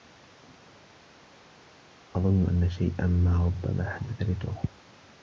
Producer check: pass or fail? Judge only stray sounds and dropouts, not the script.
pass